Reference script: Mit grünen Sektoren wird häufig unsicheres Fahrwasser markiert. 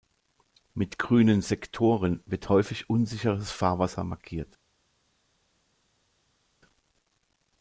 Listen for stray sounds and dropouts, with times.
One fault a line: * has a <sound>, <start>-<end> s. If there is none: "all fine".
all fine